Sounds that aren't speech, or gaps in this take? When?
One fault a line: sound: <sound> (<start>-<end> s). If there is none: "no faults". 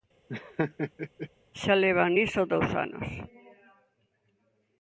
sound: laugh (0.3-1.3 s)